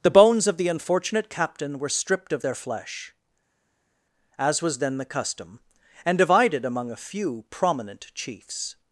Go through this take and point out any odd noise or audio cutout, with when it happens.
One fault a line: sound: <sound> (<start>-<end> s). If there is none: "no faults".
no faults